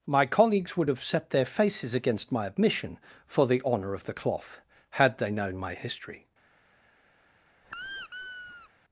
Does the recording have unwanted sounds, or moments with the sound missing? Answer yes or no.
yes